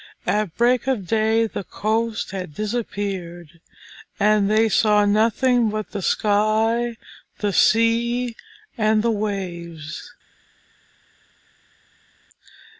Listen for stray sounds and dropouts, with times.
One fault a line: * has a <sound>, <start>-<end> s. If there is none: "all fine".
all fine